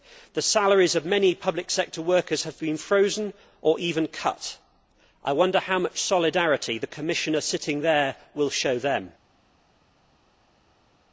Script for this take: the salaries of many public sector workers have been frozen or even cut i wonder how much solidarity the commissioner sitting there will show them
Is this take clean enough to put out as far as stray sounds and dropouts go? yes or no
yes